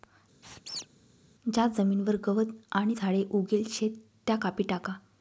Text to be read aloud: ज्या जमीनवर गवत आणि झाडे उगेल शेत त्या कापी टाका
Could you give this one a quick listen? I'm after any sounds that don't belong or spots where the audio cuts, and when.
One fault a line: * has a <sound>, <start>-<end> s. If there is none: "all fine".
* has a squeak, 0.4-0.9 s